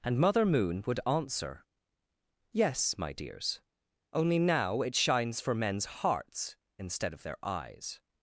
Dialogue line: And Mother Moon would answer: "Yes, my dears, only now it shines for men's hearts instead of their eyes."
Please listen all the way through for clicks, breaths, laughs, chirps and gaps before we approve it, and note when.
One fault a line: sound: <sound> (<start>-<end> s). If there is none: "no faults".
no faults